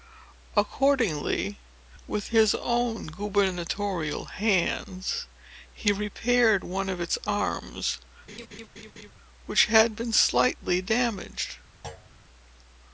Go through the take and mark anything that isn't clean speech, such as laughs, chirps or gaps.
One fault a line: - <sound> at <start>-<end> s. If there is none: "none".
- laugh at 8.3-9.1 s
- thud at 11.8-12.1 s